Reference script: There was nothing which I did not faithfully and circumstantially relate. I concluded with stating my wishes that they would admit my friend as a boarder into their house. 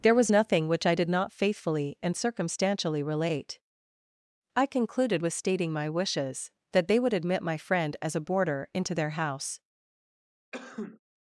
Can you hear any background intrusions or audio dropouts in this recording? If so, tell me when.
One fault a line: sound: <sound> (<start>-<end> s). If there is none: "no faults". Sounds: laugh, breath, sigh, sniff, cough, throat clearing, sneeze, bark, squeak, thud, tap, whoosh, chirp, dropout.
sound: sneeze (10.5-11.0 s)